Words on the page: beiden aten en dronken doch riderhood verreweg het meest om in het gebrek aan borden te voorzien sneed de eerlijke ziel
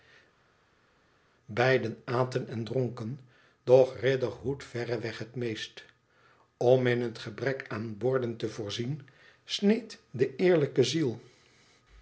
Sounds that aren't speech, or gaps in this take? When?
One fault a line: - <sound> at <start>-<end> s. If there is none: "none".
none